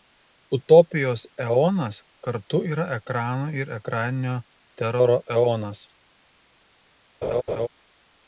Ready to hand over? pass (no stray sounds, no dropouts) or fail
fail